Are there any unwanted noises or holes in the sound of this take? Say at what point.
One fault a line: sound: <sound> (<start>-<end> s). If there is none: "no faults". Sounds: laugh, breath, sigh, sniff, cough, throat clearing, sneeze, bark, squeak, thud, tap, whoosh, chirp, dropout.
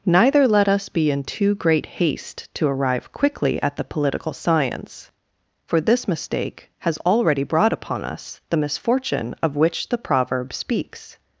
no faults